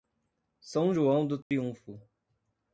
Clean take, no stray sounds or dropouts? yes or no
no